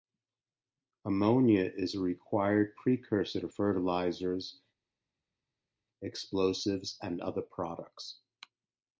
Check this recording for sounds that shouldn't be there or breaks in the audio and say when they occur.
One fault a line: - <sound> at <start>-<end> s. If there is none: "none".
none